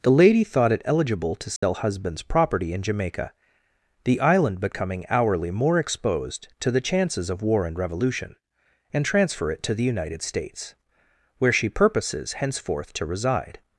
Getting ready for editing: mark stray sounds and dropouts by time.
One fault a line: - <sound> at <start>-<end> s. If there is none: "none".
- dropout at 1.6-1.6 s